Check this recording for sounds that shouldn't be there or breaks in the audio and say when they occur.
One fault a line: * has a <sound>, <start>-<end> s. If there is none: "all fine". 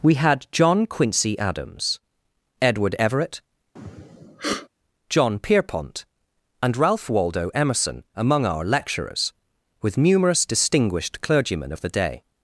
* has a sniff, 3.8-4.7 s